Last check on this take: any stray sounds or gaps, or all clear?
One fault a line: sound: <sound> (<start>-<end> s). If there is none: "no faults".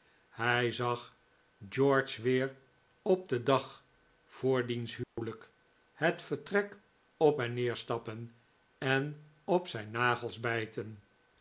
sound: dropout (5.0-5.2 s)